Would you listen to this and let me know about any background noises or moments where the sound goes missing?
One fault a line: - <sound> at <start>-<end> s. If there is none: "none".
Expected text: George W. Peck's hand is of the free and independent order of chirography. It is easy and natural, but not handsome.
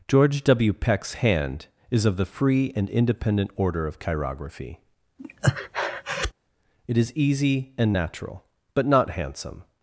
- breath at 5.2-6.3 s